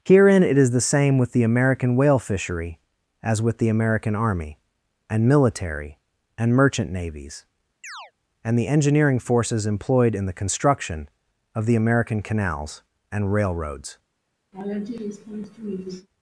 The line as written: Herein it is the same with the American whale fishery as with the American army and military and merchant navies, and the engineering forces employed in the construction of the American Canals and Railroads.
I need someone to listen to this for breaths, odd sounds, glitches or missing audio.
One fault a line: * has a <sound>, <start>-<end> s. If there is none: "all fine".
* has a chirp, 7.8-8.1 s
* has a laugh, 14.5-16.1 s